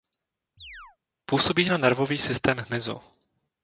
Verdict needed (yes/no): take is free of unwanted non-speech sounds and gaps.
no